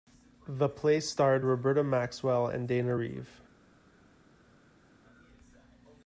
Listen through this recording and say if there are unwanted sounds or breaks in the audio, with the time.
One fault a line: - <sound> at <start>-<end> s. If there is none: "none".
none